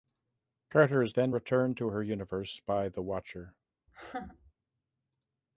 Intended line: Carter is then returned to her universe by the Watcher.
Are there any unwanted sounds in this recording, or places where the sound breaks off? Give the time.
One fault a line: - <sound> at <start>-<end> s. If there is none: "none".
- laugh at 3.9-4.5 s